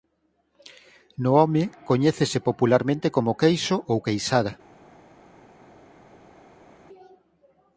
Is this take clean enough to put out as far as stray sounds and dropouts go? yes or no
yes